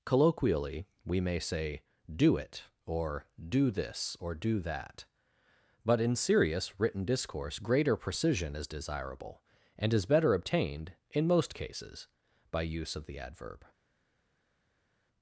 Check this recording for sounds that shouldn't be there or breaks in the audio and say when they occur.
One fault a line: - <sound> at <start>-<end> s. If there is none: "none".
none